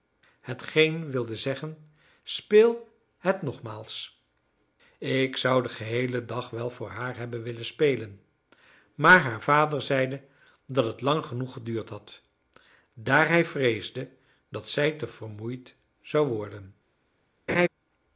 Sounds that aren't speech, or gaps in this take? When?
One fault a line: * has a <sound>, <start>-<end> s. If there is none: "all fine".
* has a laugh, 17.5-17.7 s